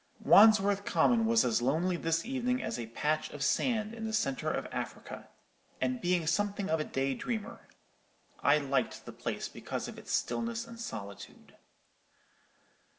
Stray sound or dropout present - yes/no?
no